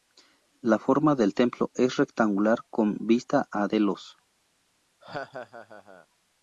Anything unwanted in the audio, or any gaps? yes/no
yes